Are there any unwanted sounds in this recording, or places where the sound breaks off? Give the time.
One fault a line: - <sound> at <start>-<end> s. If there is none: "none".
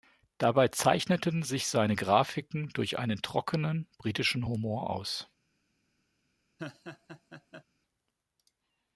- laugh at 6.6-7.6 s